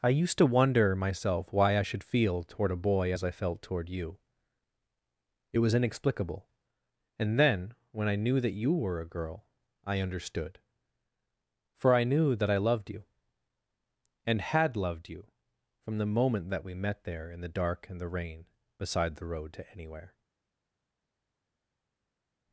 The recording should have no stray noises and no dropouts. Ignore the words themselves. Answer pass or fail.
pass